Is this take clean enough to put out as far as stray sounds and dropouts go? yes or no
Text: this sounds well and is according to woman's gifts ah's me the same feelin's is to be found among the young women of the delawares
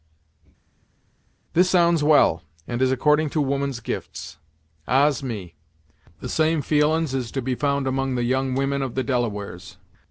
yes